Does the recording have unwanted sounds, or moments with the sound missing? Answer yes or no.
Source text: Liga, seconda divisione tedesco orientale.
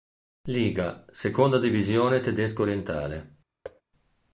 yes